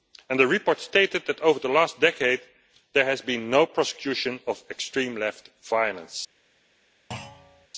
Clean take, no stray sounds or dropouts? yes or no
no